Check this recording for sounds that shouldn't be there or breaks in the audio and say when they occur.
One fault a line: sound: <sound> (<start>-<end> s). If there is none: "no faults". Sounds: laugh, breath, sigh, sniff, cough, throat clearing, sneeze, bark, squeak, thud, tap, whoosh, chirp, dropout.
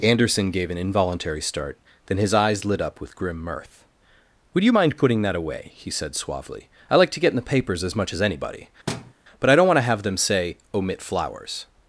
sound: thud (8.9-9.1 s)